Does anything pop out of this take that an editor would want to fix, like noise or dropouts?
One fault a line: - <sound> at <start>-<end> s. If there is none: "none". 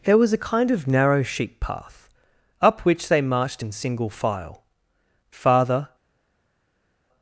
none